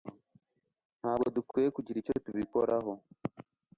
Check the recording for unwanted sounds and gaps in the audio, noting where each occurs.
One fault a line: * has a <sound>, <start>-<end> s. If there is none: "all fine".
all fine